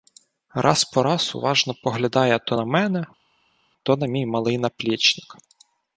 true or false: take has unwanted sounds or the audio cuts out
false